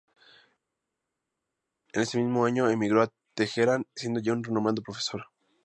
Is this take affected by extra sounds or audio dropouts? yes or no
no